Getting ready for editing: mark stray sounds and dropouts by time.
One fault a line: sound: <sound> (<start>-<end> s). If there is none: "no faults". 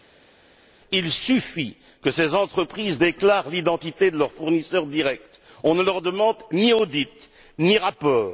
no faults